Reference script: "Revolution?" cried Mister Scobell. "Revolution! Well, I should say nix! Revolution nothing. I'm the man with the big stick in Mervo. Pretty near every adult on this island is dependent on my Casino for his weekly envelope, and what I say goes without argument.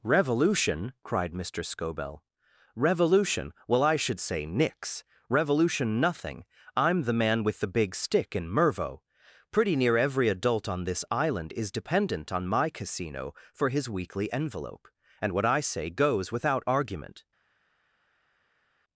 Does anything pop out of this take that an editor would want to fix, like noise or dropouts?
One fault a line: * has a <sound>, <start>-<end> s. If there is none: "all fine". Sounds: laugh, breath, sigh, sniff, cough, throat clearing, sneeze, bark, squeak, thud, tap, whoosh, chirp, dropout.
all fine